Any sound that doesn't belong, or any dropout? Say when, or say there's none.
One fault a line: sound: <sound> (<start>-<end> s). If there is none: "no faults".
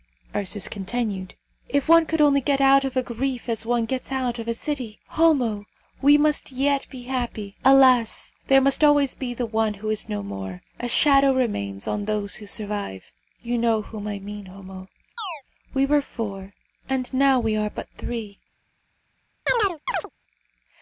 sound: chirp (15.2-15.4 s)
sound: chirp (19.5-20.1 s)